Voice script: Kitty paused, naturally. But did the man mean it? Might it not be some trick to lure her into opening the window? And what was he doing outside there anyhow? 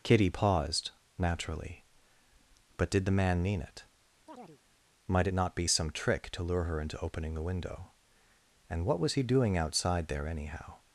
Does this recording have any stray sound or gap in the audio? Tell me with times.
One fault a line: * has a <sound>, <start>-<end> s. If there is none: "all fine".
* has a chirp, 4.3-4.6 s